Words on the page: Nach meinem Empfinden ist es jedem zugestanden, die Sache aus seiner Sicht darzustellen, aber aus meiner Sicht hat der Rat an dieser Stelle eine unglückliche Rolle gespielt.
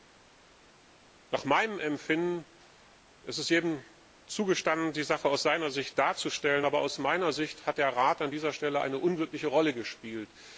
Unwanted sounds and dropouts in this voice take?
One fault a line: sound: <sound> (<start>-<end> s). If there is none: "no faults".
no faults